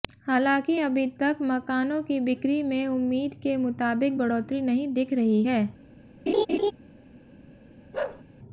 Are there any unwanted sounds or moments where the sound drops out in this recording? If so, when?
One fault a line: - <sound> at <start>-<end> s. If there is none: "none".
- laugh at 6.3-6.7 s
- bark at 7.9-8.2 s